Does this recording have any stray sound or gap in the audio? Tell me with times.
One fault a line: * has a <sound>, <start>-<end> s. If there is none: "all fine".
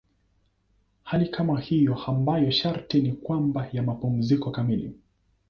all fine